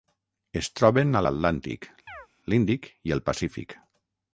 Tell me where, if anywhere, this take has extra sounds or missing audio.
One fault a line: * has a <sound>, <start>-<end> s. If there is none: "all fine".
* has a chirp, 2.1-2.3 s